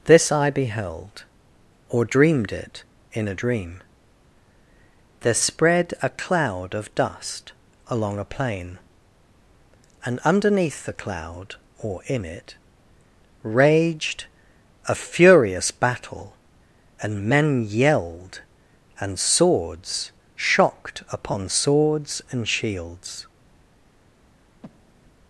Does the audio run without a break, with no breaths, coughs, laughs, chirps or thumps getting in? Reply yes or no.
no